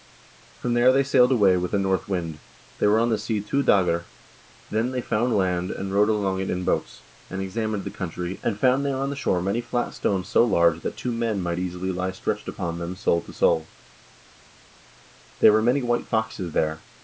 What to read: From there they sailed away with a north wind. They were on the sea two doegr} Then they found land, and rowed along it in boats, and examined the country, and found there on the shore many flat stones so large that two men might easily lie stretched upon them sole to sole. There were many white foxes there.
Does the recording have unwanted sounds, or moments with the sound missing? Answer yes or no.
no